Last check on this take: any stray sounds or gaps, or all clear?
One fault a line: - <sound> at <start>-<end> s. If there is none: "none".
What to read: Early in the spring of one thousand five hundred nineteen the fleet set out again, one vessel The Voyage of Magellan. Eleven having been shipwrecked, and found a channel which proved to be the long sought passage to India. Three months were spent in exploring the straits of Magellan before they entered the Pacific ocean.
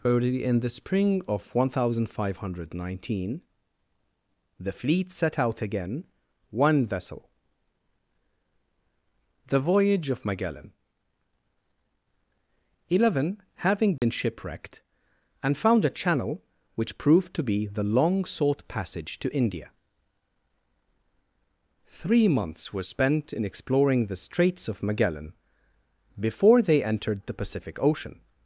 - dropout at 14.0-14.0 s